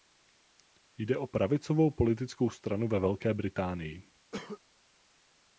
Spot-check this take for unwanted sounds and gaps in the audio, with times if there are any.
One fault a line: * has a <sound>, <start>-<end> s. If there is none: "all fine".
* has a cough, 4.3-4.6 s